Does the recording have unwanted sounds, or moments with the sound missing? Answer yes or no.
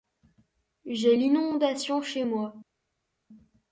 no